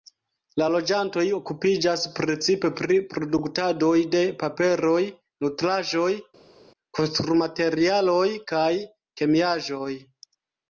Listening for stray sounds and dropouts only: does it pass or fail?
pass